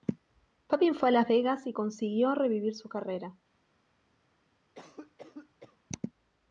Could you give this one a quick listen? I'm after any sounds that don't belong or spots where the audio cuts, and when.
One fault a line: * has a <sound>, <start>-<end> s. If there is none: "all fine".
* has a cough, 4.7-5.8 s